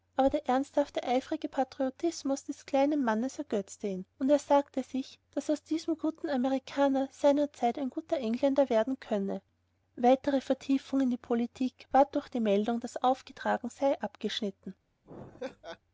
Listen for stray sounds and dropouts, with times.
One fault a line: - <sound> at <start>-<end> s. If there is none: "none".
- laugh at 15.0-15.8 s